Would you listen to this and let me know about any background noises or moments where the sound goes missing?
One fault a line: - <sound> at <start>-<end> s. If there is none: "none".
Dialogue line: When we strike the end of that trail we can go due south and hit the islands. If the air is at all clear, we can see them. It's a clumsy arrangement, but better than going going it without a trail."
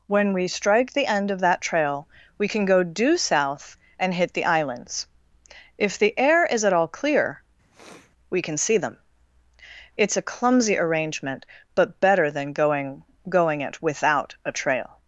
- sniff at 7.7-8.1 s